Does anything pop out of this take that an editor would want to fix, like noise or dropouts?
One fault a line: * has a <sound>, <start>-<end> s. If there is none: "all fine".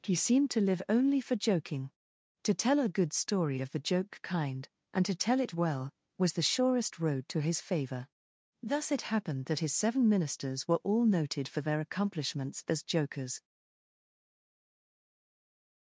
all fine